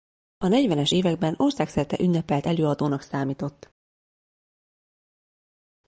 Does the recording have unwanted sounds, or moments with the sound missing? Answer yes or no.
no